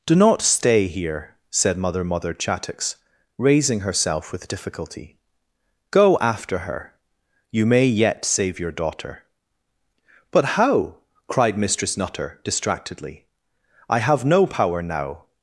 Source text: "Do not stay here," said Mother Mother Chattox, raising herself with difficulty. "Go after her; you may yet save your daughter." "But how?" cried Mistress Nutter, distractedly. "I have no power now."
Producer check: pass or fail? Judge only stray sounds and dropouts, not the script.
pass